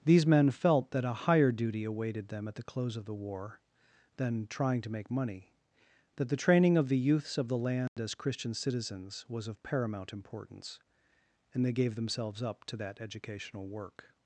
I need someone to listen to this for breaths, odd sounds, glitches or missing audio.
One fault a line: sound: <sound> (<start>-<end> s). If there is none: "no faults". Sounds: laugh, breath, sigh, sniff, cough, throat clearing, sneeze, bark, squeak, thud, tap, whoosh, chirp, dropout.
sound: dropout (7.9-8.0 s)